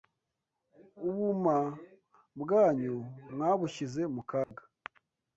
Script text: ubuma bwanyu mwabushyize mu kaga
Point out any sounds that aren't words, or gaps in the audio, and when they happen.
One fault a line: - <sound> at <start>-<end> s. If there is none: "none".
- dropout at 4.4-4.5 s